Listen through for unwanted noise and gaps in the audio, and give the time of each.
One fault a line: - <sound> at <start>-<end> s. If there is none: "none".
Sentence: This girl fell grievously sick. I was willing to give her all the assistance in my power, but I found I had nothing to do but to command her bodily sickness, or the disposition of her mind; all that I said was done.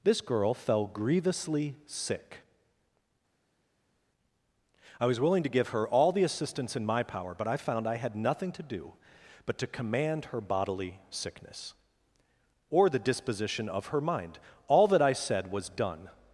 none